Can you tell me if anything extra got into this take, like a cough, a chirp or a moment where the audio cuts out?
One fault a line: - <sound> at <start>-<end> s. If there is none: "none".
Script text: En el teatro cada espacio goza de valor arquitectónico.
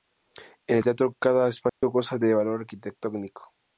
- dropout at 1.7-1.8 s